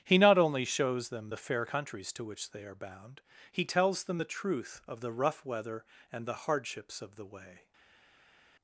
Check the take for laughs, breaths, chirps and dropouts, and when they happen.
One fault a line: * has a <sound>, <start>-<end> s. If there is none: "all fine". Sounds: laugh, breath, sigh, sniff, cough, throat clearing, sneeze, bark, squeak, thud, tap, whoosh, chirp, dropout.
all fine